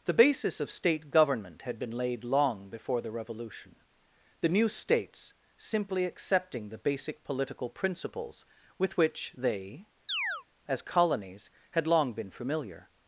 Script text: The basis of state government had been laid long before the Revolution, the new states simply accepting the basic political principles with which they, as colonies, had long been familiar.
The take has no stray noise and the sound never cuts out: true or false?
false